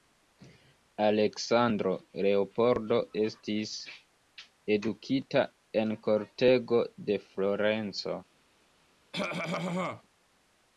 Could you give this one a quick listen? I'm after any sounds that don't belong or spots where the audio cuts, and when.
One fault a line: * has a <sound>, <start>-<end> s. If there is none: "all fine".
* has a cough, 9.1-10.0 s